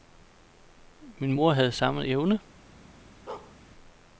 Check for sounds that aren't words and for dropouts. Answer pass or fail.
fail